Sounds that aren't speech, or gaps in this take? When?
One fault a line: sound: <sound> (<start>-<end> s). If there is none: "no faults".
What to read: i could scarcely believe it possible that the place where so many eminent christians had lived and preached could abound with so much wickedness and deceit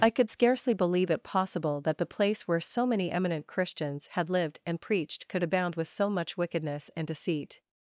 no faults